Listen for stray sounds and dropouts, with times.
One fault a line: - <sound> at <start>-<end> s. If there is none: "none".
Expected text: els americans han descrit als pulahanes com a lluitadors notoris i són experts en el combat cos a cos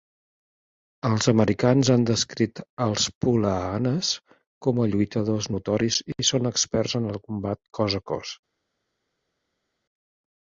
none